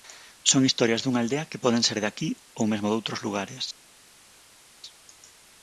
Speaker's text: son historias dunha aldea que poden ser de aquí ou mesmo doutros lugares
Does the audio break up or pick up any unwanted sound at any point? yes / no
no